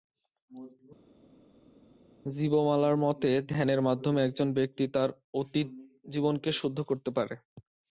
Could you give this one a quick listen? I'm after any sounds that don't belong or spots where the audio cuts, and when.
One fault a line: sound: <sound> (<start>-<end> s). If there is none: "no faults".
no faults